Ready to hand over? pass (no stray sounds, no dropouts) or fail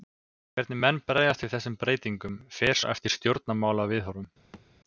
fail